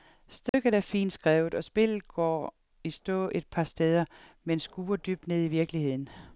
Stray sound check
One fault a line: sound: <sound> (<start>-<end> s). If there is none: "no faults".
sound: dropout (0.5-0.5 s)